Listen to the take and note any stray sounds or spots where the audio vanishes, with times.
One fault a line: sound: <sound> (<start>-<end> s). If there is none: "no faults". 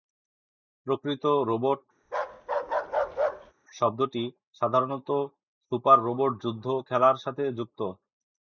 sound: bark (2.0-3.5 s)